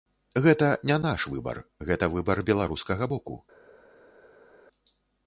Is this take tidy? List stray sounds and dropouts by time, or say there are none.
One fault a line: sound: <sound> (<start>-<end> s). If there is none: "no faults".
no faults